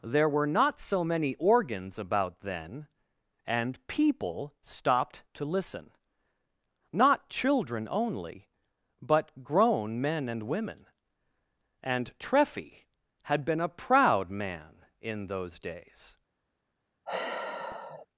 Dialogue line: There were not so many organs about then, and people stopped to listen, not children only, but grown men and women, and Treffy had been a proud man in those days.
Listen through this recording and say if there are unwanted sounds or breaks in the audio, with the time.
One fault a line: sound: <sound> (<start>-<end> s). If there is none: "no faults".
sound: sigh (17.1-18.1 s)